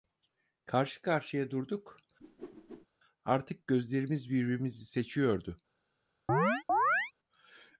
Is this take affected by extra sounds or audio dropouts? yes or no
yes